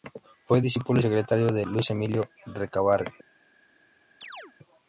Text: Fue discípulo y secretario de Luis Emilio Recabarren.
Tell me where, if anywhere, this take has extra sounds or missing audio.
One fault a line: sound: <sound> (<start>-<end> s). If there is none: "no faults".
sound: chirp (4.2-4.5 s)